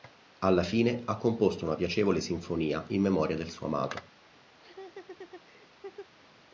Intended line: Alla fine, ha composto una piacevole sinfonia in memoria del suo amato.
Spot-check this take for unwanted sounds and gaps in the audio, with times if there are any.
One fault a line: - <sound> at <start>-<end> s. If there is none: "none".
- laugh at 4.6-6.1 s